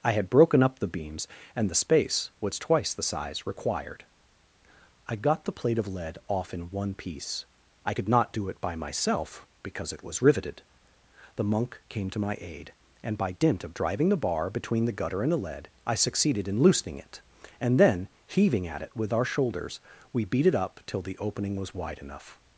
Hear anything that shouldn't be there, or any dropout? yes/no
no